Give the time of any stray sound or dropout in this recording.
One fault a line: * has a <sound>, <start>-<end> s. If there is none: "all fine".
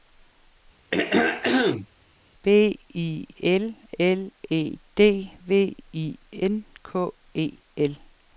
* has a throat clearing, 0.9-1.9 s